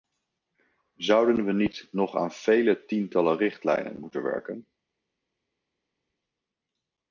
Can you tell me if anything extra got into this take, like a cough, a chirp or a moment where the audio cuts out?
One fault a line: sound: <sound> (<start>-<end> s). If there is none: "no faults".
no faults